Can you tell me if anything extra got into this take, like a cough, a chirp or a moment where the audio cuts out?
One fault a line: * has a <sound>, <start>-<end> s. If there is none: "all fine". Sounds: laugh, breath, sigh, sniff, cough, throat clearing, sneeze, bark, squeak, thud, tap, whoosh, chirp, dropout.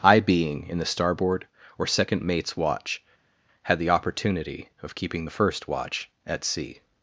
all fine